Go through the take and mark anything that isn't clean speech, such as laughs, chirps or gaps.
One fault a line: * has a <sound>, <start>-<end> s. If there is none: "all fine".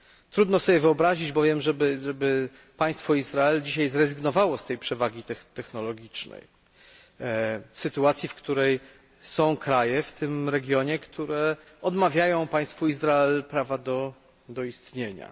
all fine